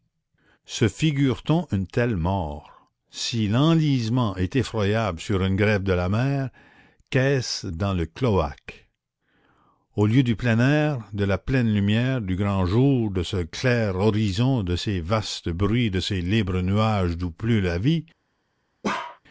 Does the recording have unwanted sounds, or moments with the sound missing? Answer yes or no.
yes